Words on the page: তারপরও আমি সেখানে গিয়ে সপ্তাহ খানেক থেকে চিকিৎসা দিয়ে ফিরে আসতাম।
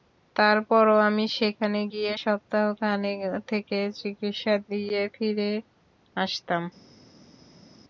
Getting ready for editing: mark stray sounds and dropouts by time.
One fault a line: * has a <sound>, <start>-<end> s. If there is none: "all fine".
all fine